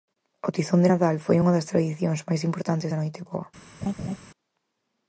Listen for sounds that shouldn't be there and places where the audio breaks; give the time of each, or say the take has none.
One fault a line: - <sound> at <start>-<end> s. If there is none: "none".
- laugh at 3.8-4.2 s